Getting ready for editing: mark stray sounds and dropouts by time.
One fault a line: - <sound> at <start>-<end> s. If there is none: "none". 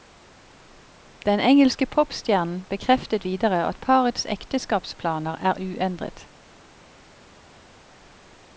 none